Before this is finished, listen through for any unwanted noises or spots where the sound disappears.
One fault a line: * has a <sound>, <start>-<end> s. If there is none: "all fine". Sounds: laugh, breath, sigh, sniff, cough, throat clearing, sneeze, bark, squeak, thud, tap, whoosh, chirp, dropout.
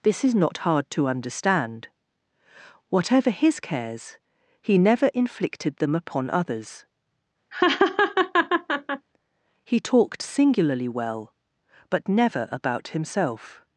* has a laugh, 7.5-9.1 s